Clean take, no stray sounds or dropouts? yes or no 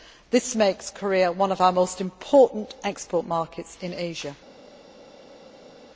yes